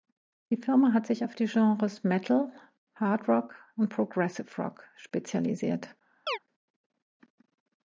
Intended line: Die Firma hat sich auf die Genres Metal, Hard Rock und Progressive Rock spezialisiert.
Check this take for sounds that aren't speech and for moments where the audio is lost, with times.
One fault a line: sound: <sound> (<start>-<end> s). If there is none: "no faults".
sound: chirp (6.3-6.4 s)